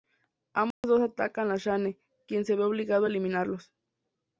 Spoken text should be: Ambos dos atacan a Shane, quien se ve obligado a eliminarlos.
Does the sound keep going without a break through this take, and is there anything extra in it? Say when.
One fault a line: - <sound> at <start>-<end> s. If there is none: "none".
- dropout at 0.7-0.8 s